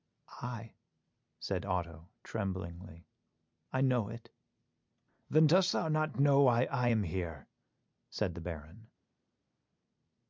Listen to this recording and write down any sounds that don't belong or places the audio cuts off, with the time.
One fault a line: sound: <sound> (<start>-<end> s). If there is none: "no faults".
no faults